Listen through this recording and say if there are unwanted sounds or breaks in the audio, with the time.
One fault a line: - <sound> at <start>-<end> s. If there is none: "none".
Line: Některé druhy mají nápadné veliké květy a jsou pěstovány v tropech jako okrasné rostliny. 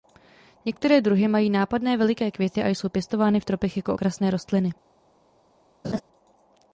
- laugh at 5.8-6.0 s